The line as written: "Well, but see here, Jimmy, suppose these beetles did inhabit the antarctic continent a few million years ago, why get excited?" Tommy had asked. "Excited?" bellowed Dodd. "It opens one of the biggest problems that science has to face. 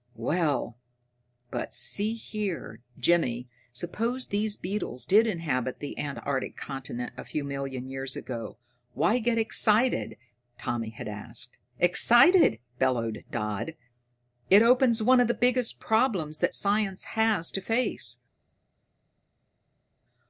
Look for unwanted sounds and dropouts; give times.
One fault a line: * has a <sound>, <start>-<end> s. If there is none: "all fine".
all fine